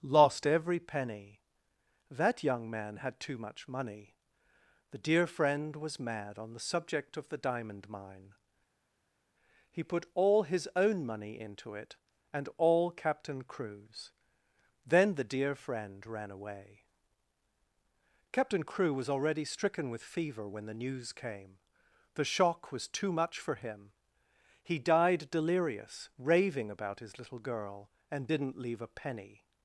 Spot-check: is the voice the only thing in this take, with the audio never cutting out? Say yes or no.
yes